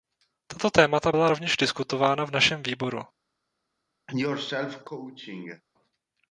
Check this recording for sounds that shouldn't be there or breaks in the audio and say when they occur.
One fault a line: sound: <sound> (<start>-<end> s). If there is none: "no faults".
sound: cough (4.1-5.6 s)